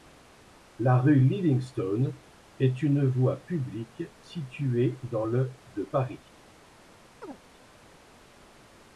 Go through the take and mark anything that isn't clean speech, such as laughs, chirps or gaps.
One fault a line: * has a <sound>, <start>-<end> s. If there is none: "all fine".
* has a chirp, 7.2-7.4 s